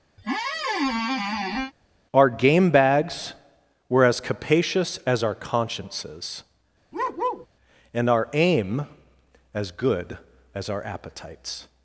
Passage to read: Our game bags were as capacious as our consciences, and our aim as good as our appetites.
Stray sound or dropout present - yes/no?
yes